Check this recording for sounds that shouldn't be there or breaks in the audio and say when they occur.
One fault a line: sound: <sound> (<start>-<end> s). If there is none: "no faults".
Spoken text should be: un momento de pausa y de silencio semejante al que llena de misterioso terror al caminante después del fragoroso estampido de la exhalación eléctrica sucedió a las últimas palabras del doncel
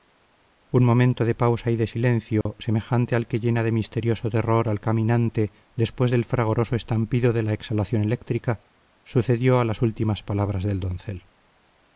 sound: dropout (2.4-2.5 s)